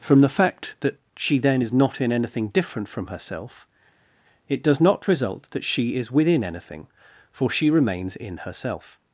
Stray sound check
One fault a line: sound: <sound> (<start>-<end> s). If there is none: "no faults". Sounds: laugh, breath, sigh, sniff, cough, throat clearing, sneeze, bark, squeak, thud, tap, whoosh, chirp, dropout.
no faults